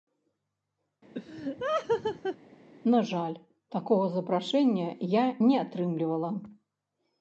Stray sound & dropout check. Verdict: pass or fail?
fail